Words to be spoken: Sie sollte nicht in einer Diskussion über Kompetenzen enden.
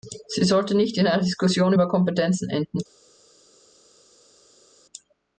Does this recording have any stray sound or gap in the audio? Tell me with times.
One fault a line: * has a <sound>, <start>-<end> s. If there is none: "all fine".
all fine